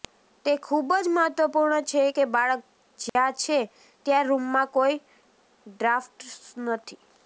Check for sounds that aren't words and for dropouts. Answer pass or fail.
fail